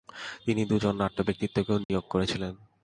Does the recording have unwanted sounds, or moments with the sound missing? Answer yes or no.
yes